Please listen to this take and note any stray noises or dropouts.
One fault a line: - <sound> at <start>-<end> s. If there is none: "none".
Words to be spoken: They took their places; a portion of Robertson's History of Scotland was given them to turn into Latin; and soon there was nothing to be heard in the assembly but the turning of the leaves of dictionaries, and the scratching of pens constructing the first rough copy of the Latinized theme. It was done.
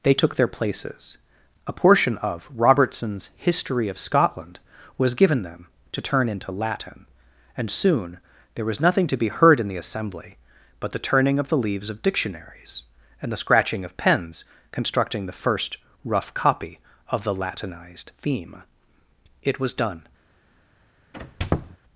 - squeak at 21.1-21.8 s